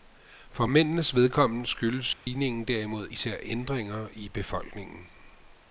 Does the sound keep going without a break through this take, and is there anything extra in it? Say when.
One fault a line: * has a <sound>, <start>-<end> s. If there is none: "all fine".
* has a dropout, 2.1-2.3 s